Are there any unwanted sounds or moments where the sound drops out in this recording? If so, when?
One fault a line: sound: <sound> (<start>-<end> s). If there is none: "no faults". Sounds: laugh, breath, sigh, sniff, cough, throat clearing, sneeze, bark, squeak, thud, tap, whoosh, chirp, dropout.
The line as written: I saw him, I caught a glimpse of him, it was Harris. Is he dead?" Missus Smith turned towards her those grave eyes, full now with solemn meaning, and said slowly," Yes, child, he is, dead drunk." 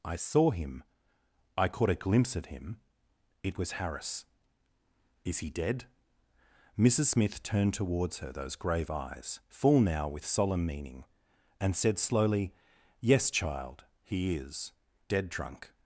no faults